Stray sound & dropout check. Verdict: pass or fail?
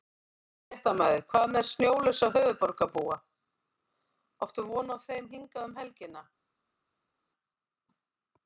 pass